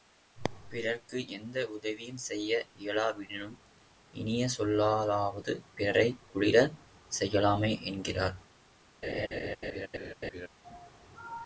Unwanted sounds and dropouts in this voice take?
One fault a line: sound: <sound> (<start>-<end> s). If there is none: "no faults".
sound: laugh (9.0-10.5 s)